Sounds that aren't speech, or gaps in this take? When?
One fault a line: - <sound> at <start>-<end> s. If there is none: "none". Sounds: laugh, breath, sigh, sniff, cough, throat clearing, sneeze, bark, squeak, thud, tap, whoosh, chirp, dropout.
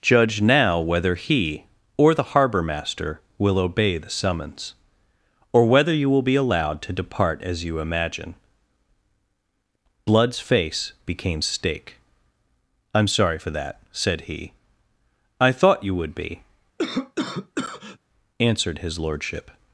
- cough at 16.8-18.0 s